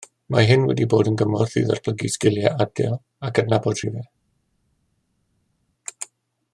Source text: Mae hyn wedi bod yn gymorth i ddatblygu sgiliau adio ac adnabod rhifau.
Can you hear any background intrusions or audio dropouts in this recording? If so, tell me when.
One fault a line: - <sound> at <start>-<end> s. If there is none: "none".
none